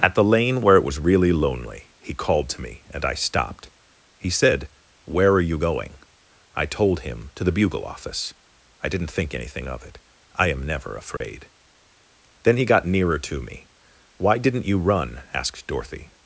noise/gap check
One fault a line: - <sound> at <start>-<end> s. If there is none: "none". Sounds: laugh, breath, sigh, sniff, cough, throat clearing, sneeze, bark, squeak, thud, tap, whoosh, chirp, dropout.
- dropout at 11.2-11.2 s